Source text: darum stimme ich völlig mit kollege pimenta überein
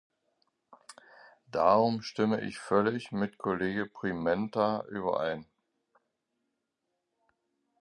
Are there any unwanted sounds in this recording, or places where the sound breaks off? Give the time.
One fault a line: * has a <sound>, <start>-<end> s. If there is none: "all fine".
all fine